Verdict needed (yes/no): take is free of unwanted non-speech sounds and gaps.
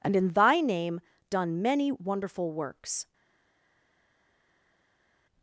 yes